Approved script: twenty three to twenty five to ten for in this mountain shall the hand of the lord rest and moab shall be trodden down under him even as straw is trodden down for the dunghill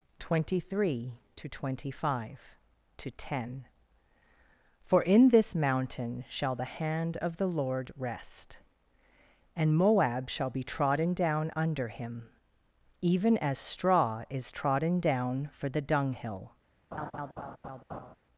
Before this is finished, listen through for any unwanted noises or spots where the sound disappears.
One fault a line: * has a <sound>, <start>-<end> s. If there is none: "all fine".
* has a laugh, 16.9-18.2 s